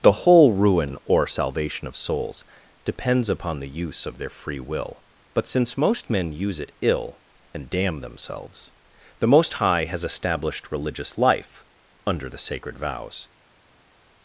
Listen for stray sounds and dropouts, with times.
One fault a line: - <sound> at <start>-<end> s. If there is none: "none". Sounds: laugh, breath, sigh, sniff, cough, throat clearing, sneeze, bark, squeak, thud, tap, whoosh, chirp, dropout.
none